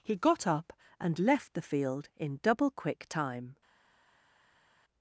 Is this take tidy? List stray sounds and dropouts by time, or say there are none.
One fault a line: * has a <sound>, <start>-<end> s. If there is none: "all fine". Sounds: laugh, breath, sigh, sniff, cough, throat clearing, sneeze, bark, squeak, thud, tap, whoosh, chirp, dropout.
all fine